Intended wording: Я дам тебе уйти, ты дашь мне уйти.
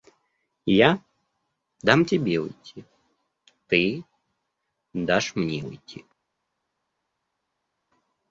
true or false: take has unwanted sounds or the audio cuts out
false